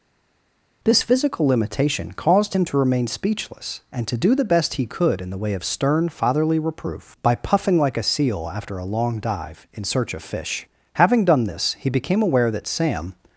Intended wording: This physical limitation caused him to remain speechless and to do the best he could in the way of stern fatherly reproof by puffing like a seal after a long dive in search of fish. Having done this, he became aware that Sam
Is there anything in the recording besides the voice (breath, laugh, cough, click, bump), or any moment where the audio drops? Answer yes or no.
no